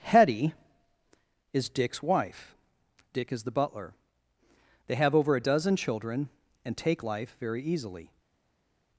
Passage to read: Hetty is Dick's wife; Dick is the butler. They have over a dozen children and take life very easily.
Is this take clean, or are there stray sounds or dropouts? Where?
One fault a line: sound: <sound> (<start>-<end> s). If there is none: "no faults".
no faults